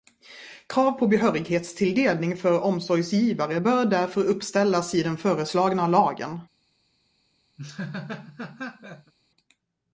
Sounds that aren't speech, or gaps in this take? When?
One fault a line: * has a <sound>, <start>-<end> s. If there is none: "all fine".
* has a laugh, 7.6-9.1 s